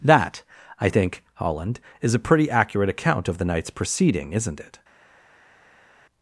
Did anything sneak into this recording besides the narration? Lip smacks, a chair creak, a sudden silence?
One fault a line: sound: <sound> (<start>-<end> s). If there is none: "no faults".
no faults